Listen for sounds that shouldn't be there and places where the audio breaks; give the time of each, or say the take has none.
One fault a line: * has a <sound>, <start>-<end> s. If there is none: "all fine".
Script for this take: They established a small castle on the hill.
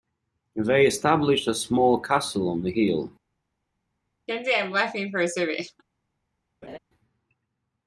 * has a laugh, 4.3-5.8 s
* has a laugh, 6.6-6.8 s